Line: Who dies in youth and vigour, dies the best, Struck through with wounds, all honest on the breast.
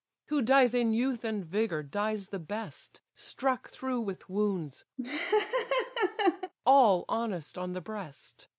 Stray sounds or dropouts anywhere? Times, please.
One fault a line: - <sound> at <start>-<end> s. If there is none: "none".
- laugh at 5.0-6.5 s